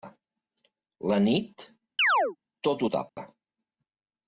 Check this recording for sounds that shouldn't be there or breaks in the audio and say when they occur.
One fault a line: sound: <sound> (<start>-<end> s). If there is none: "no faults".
sound: chirp (2.0-2.4 s)
sound: dropout (3.1-3.2 s)